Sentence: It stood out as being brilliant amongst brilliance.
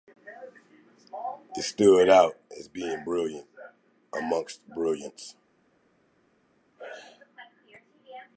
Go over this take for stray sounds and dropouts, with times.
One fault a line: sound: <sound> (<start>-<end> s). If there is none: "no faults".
no faults